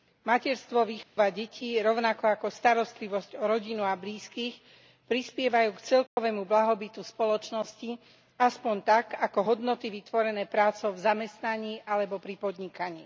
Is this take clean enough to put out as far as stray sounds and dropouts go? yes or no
no